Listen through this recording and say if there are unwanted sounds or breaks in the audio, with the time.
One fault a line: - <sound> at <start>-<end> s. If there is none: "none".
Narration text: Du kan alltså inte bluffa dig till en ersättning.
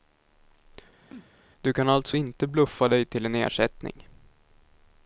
- sneeze at 1.1-1.3 s